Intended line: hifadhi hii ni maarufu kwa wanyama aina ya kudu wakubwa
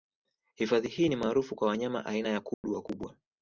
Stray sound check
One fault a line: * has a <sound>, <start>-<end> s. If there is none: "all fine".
* has a dropout, 2.5-2.6 s